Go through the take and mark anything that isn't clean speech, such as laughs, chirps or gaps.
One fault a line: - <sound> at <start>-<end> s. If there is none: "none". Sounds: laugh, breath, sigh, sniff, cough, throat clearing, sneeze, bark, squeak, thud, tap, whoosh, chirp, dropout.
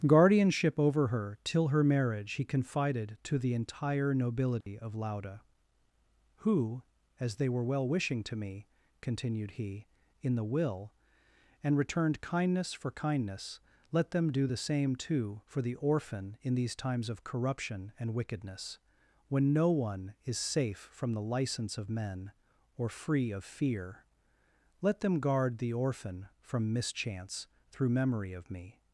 - dropout at 4.6-4.7 s